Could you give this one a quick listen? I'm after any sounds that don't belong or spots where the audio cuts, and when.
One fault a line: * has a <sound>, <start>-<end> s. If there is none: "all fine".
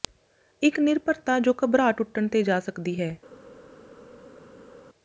all fine